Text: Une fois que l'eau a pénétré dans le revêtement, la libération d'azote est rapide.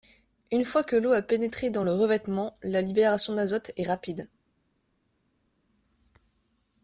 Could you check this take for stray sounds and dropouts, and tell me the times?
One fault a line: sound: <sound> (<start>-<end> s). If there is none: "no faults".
no faults